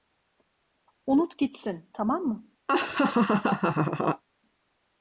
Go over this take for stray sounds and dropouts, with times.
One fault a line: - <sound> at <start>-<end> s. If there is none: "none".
- laugh at 2.7-4.2 s